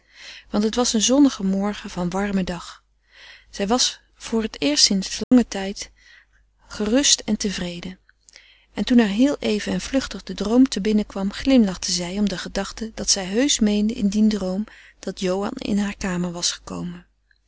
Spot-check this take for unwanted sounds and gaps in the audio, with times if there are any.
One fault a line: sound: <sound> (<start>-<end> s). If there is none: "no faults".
sound: dropout (5.2-5.3 s)